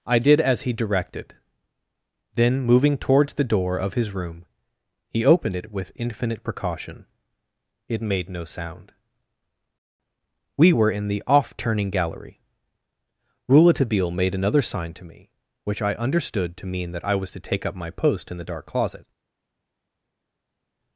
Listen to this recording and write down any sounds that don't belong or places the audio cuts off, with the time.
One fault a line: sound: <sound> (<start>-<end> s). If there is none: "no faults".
no faults